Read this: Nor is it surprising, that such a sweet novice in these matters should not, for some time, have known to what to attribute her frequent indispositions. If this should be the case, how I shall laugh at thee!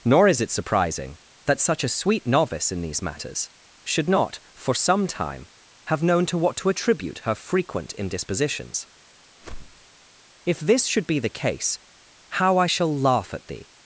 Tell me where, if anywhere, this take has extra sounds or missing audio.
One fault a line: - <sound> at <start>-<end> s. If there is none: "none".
- whoosh at 9.4-9.9 s